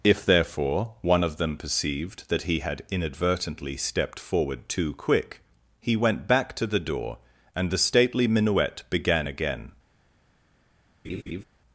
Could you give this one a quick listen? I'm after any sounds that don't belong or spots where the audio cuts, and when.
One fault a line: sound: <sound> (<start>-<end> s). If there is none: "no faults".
sound: laugh (11.0-11.4 s)